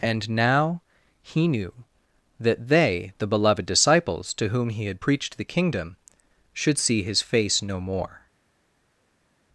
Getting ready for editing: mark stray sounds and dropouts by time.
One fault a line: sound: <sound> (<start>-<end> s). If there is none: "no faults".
no faults